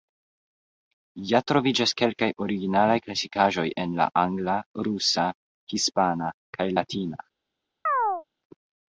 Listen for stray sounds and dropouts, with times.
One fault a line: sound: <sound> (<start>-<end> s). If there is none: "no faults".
sound: chirp (7.9-8.2 s)